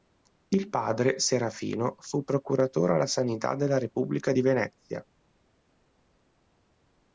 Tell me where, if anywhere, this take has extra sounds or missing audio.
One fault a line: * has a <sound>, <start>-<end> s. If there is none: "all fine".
all fine